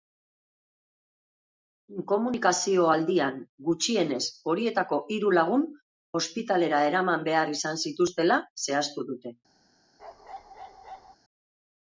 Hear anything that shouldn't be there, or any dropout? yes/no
yes